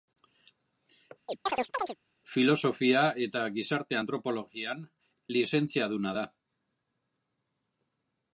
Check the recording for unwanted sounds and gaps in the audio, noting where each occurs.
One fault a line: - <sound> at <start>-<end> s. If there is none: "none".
- chirp at 1.3-2.0 s